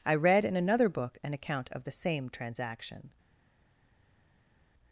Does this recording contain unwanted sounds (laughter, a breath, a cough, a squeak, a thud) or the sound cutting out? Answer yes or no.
no